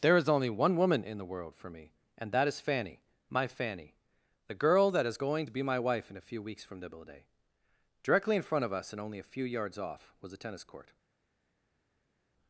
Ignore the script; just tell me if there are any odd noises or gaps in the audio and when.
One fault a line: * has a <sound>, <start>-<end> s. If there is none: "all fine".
all fine